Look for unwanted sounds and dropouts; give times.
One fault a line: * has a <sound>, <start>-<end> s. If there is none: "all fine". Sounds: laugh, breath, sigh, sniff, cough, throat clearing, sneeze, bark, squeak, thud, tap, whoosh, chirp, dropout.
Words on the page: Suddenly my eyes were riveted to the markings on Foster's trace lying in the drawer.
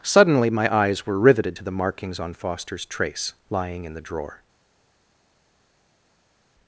all fine